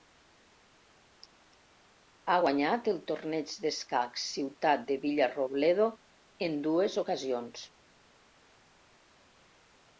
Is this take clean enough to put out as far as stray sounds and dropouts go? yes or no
yes